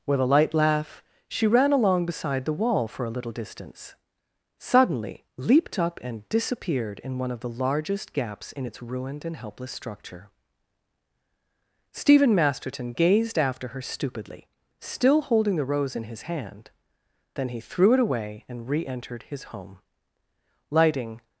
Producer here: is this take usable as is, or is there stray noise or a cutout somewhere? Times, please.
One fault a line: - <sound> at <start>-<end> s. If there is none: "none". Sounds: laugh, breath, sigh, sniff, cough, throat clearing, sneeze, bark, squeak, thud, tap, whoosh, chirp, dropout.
none